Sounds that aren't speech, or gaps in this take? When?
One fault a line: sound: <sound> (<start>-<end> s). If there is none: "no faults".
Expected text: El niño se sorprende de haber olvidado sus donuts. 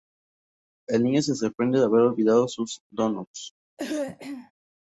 sound: throat clearing (3.8-4.5 s)